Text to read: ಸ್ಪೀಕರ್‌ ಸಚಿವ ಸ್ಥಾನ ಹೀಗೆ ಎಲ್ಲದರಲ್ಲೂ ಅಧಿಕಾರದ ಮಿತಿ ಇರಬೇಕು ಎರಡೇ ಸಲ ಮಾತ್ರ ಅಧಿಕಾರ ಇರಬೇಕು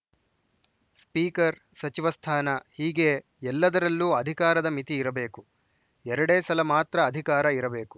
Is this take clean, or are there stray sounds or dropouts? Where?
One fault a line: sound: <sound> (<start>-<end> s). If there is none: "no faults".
no faults